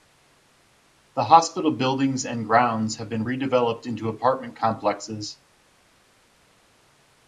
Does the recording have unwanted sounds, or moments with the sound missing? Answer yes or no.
no